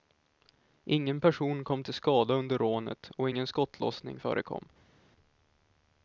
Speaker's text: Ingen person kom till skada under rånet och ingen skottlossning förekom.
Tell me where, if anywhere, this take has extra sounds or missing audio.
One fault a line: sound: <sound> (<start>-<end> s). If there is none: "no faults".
no faults